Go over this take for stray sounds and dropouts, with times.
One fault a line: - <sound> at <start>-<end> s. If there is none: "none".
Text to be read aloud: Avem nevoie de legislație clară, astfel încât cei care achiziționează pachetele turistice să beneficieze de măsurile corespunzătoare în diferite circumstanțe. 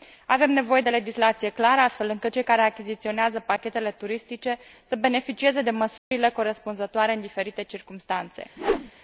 - dropout at 6.0-6.1 s
- whoosh at 8.6-8.9 s